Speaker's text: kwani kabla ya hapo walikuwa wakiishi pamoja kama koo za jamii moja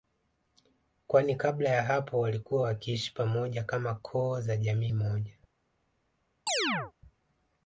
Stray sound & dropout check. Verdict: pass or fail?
fail